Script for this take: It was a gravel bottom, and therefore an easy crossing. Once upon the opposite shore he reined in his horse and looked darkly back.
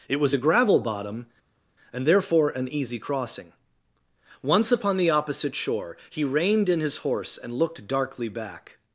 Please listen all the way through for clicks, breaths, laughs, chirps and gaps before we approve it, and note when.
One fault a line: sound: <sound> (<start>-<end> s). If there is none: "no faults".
no faults